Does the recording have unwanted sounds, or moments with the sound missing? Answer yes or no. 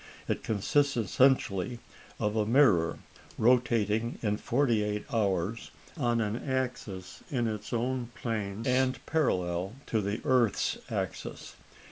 no